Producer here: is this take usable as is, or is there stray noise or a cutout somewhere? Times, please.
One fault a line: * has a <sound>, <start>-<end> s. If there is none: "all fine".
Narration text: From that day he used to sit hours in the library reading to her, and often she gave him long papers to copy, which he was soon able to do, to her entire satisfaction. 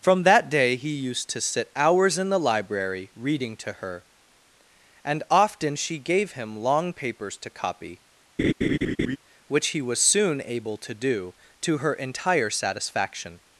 * has a laugh, 8.4-9.2 s